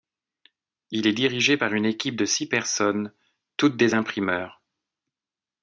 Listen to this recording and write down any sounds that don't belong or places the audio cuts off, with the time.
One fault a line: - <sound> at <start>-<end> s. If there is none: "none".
none